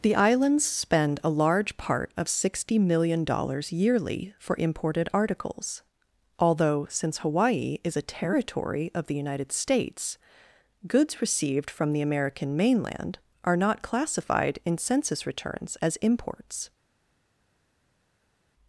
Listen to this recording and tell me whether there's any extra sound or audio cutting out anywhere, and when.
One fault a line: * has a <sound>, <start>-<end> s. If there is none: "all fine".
all fine